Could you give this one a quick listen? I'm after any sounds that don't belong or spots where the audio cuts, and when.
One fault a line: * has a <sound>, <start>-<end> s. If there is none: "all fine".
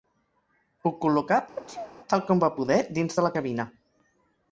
* has a sneeze, 1.6-1.9 s